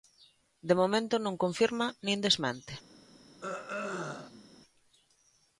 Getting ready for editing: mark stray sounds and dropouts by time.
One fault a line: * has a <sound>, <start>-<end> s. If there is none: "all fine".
* has a throat clearing, 3.4-4.5 s